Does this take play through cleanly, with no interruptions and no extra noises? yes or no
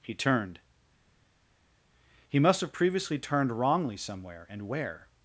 yes